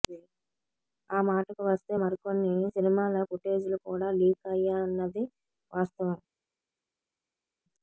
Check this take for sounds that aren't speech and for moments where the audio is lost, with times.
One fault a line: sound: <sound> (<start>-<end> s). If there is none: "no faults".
no faults